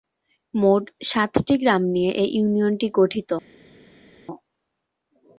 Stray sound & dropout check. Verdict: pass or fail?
pass